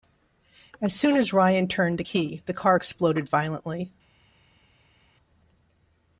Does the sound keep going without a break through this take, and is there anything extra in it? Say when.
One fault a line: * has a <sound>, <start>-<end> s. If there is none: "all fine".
all fine